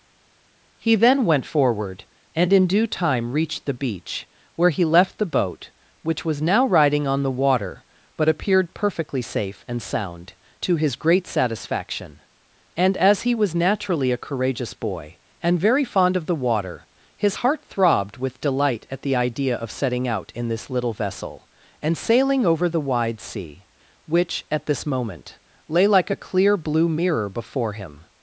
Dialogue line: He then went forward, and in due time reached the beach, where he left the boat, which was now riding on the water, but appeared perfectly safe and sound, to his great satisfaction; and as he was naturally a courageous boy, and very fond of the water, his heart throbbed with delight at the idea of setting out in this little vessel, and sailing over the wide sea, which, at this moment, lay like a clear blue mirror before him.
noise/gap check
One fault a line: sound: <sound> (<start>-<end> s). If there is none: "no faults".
no faults